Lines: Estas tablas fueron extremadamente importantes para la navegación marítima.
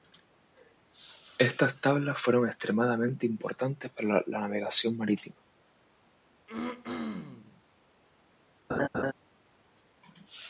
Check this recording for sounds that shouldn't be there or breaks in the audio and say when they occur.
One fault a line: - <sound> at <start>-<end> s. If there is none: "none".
- throat clearing at 6.5-7.6 s
- laugh at 8.7-9.1 s